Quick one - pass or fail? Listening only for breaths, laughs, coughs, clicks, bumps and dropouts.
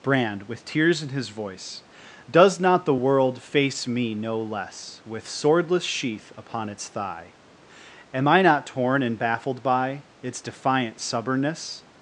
pass